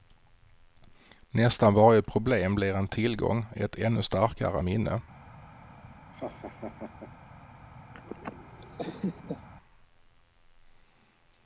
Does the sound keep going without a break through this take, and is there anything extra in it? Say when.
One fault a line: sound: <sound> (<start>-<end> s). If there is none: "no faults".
sound: laugh (6.1-7.1 s)
sound: laugh (7.9-9.5 s)